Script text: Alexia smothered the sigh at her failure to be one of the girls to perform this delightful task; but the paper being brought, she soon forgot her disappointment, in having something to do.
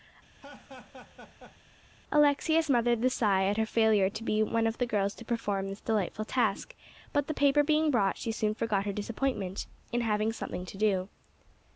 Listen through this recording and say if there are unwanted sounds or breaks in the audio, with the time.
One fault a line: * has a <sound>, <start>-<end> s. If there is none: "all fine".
* has a laugh, 0.4-1.6 s